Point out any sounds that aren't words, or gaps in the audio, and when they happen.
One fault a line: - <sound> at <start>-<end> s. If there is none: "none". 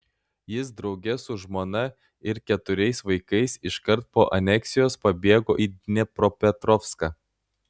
none